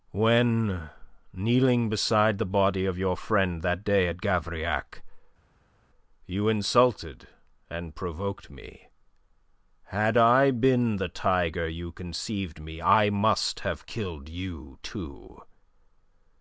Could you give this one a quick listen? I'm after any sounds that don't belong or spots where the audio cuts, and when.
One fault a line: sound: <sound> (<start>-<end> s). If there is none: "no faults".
no faults